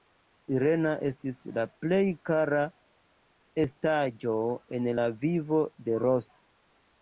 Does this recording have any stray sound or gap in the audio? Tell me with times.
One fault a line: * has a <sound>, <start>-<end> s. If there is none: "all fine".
all fine